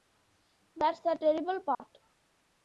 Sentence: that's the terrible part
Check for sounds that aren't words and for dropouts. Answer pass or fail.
fail